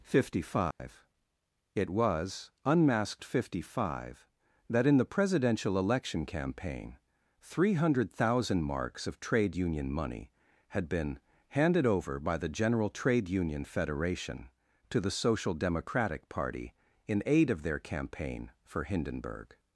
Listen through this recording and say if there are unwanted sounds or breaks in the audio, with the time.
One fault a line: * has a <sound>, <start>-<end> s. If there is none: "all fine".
* has a dropout, 0.7-0.8 s